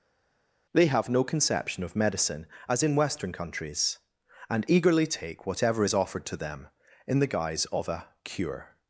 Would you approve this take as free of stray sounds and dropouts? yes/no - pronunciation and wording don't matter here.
yes